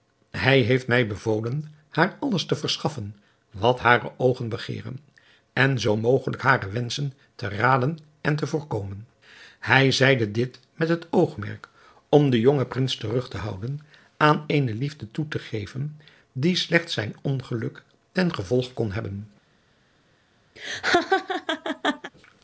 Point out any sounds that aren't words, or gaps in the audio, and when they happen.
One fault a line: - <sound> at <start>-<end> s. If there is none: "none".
- laugh at 20.6-22.1 s